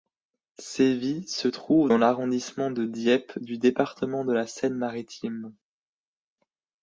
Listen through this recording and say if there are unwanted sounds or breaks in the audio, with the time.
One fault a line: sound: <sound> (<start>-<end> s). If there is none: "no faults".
no faults